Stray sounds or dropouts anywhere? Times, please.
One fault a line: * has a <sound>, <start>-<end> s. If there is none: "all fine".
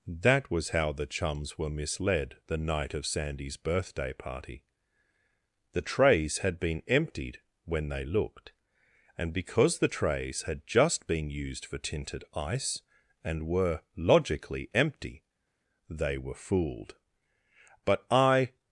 all fine